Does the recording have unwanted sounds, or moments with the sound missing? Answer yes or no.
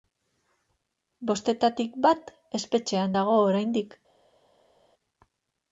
no